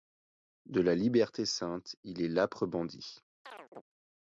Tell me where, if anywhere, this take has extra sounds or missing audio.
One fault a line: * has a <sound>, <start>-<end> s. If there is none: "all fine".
* has a chirp, 3.4-3.8 s